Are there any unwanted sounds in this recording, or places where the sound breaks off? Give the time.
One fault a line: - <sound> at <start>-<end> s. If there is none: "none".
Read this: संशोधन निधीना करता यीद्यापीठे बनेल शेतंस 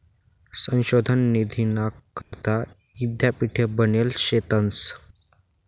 - dropout at 2.2-2.3 s